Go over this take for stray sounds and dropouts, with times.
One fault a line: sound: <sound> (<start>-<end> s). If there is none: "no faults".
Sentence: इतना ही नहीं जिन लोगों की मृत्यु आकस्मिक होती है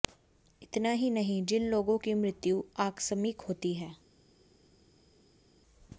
no faults